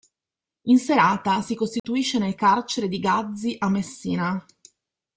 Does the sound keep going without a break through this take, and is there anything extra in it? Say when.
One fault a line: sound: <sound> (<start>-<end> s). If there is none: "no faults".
sound: dropout (1.8-1.8 s)